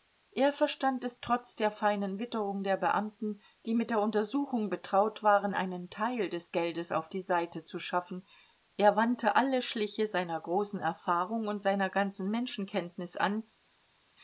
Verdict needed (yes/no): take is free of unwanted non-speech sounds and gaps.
yes